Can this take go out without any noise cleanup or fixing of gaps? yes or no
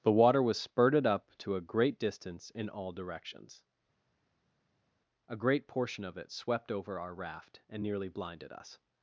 yes